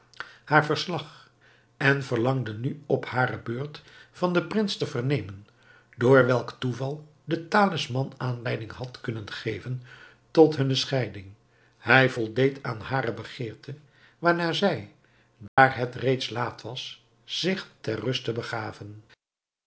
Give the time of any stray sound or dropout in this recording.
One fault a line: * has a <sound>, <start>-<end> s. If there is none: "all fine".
* has a dropout, 15.5-15.6 s